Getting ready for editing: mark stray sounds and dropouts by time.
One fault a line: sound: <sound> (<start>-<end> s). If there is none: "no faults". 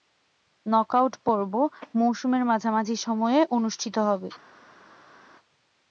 no faults